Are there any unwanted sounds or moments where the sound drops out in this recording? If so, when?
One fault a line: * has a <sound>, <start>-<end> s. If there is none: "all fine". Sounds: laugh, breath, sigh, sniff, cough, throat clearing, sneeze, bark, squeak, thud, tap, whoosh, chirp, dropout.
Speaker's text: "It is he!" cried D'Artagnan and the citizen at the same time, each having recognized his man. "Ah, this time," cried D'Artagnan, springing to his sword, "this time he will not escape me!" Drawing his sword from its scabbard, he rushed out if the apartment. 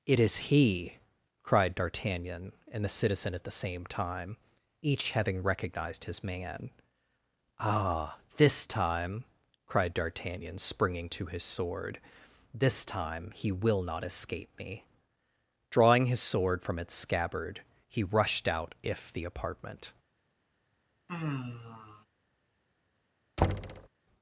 * has a sigh, 21.1-22.1 s
* has a thud, 23.4-23.9 s